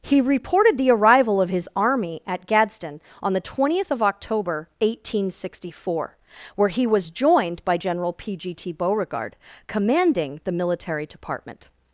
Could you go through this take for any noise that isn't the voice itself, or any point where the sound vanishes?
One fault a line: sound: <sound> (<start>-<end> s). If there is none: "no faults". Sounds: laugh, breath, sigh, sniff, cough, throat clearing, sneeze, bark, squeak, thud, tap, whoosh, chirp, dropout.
no faults